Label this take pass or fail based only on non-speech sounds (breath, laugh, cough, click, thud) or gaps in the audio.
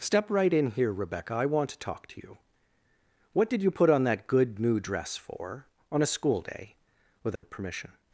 fail